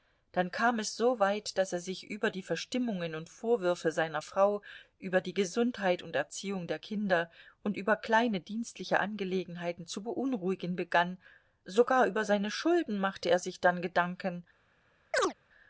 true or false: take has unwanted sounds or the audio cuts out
true